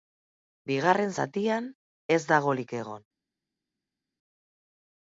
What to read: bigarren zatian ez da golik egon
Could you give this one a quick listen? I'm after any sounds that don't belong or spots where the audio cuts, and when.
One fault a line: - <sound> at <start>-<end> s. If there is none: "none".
none